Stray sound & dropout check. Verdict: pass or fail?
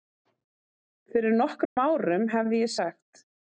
fail